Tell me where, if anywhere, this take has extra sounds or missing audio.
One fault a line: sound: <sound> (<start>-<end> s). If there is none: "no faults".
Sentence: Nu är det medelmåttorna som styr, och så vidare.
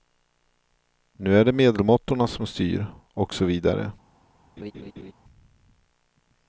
sound: laugh (4.6-5.1 s)